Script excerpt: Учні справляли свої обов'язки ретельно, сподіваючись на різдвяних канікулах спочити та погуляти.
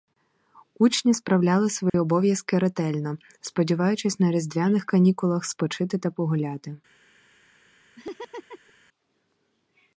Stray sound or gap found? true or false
true